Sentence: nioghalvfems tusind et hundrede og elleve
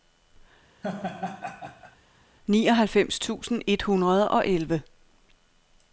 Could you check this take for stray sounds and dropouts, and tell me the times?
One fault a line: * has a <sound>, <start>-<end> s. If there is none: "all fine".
* has a laugh, 0.8-2.0 s